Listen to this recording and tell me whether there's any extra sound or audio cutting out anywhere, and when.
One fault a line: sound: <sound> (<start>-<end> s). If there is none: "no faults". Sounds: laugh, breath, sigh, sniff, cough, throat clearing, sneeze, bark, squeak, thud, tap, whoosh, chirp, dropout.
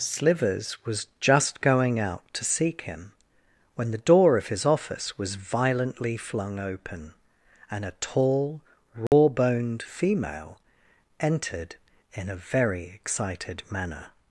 sound: dropout (9.1-9.1 s)